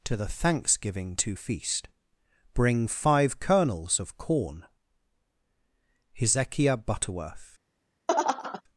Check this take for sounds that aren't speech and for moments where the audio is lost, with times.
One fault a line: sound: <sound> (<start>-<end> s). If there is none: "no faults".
sound: laugh (8.1-8.6 s)